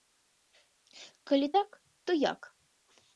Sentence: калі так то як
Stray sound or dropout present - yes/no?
no